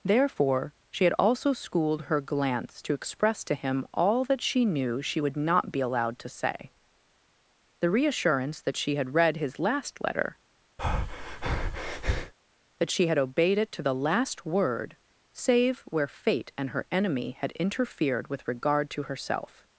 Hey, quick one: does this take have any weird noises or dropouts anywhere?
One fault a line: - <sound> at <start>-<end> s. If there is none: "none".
- breath at 10.8-12.3 s